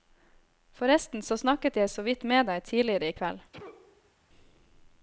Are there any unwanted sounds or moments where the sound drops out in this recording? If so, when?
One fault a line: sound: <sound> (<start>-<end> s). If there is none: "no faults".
sound: sneeze (3.5-4.1 s)